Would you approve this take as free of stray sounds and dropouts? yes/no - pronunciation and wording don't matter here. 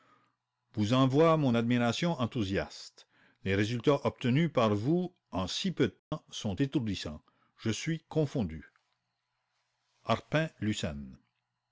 no